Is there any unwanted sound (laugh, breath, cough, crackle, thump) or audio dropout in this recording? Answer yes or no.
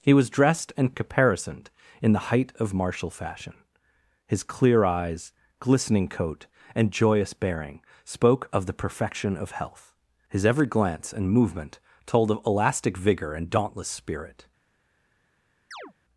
yes